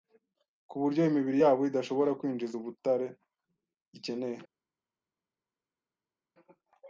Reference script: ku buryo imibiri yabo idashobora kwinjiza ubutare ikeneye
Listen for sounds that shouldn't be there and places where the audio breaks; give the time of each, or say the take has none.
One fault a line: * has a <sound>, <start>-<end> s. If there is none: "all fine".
all fine